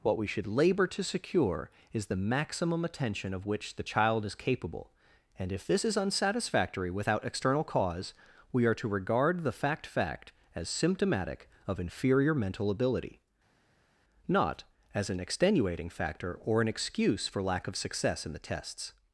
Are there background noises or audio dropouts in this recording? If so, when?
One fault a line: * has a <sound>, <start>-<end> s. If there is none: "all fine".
all fine